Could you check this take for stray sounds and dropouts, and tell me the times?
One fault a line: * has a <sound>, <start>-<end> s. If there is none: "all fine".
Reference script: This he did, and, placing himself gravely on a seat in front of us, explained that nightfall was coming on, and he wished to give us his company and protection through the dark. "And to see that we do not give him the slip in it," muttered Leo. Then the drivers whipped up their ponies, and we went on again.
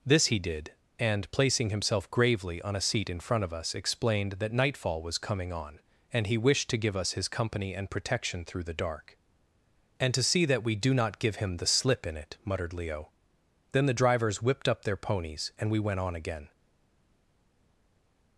all fine